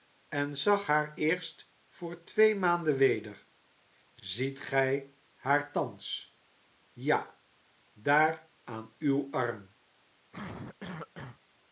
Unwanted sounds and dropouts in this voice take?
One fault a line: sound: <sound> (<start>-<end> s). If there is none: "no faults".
sound: cough (10.3-11.4 s)